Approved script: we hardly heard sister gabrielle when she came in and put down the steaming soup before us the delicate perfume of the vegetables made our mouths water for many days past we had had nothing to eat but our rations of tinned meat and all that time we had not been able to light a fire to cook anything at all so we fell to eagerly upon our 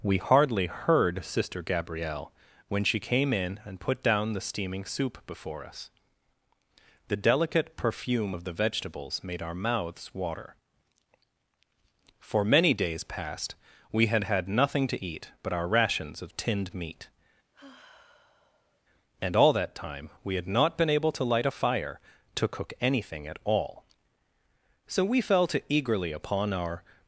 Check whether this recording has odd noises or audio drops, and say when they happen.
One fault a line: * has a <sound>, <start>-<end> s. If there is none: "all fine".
* has a sigh, 17.5-18.8 s